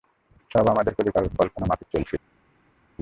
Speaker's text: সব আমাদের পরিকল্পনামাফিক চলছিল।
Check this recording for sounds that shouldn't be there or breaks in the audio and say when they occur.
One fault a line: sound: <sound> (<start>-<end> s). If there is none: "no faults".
no faults